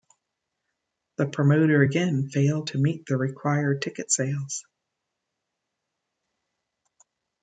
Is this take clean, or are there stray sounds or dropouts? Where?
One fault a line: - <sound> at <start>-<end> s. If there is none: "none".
none